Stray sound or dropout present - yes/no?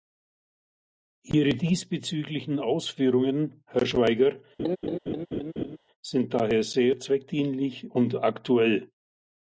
yes